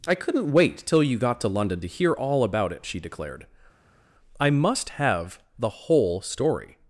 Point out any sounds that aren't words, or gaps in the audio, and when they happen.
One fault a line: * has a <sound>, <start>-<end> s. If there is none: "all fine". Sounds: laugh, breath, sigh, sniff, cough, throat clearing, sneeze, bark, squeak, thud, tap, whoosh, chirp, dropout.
all fine